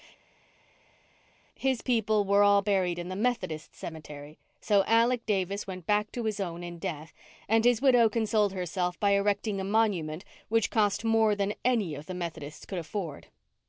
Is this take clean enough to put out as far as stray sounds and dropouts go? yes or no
yes